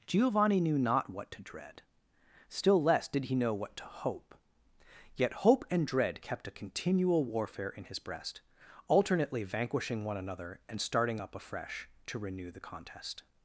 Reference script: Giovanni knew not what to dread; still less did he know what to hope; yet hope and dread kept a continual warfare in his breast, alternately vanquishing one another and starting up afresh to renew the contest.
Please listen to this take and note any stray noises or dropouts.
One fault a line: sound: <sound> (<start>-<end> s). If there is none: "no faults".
no faults